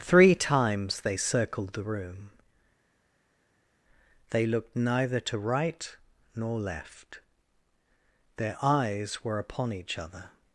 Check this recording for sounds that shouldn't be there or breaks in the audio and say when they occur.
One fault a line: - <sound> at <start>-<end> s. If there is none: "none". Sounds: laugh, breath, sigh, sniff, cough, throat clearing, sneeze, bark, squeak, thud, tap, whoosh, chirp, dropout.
none